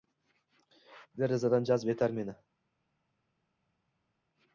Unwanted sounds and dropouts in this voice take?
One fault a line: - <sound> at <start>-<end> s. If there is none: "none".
none